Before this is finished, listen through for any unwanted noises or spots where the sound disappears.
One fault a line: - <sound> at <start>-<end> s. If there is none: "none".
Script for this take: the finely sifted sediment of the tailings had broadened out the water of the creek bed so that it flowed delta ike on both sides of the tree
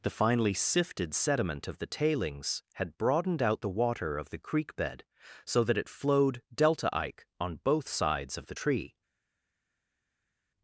none